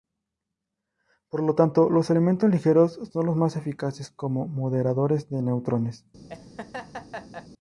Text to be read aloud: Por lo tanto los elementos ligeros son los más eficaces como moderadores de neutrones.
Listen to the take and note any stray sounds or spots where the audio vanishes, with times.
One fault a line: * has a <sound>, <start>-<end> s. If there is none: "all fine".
* has a laugh, 6.3-7.5 s